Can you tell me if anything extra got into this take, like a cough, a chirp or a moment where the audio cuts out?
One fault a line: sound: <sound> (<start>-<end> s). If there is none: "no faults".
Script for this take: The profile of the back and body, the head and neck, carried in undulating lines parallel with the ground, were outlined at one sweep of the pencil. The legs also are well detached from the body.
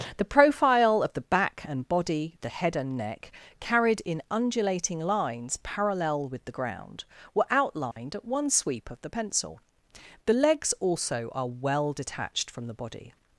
sound: dropout (7.9-8.0 s)